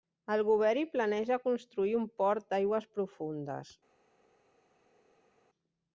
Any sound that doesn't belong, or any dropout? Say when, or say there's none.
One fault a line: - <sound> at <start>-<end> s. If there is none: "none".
none